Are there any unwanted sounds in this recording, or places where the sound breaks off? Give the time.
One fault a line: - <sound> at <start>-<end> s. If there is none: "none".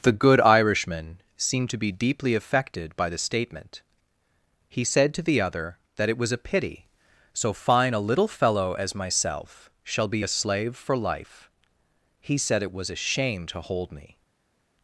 none